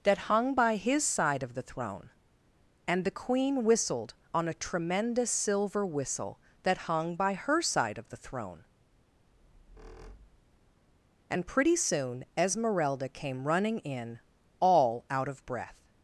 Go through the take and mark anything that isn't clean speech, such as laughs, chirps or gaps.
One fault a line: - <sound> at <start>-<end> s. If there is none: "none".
- squeak at 9.3-10.8 s